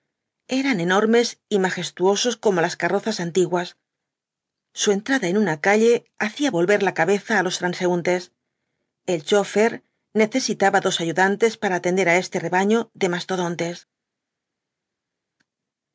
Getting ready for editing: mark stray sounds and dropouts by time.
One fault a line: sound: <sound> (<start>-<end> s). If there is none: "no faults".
no faults